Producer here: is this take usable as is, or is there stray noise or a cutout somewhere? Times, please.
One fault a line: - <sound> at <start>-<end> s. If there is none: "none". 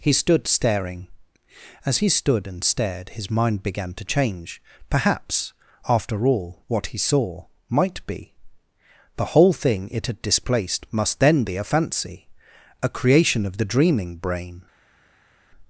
none